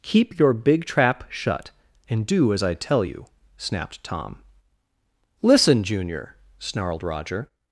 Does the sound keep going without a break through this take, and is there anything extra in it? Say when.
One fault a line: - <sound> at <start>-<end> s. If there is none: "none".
none